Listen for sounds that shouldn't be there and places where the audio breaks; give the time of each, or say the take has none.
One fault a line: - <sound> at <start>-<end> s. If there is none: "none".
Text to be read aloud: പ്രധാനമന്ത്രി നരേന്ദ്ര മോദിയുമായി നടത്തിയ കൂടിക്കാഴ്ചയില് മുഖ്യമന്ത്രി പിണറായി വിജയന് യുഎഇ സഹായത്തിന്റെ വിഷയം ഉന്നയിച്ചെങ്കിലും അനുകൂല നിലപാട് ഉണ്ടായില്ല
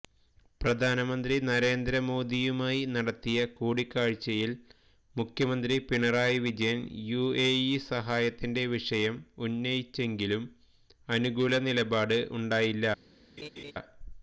- laugh at 13.4-13.7 s